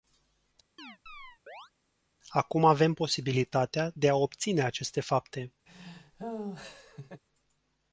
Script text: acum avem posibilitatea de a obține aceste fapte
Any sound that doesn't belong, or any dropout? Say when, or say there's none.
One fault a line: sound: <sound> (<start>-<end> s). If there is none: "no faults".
sound: chirp (0.8-1.7 s)
sound: laugh (5.7-7.2 s)